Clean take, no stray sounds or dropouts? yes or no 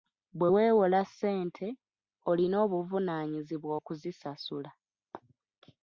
yes